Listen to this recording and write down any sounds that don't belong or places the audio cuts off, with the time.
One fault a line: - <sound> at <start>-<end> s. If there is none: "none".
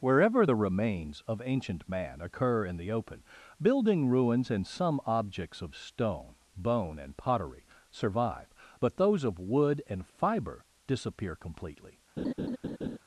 - laugh at 12.2-13.0 s